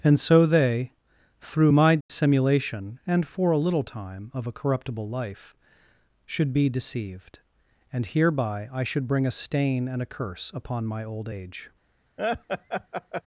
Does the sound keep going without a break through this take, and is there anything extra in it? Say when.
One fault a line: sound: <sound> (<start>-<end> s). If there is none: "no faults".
sound: dropout (2.0-2.1 s)
sound: laugh (12.2-13.2 s)